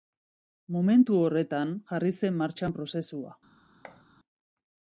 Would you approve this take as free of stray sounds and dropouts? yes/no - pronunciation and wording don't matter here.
no